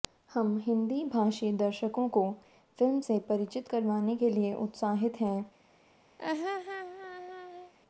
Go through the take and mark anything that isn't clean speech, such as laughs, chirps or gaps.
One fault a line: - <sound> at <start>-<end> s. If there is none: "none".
- laugh at 6.2-7.7 s